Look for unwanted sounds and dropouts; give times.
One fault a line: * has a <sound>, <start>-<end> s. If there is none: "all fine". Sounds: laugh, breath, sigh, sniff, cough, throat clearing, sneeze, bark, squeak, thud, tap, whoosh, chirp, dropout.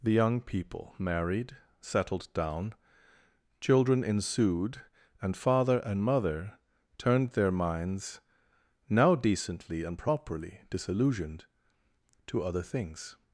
all fine